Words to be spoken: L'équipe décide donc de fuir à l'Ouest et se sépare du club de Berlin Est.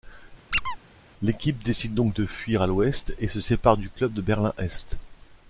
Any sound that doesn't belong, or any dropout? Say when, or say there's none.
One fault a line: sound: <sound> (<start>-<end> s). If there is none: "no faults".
sound: squeak (0.5-0.8 s)